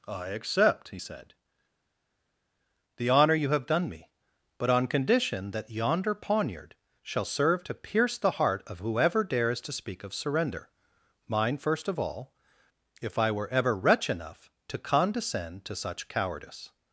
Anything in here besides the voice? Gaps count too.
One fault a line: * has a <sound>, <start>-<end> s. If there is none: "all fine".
all fine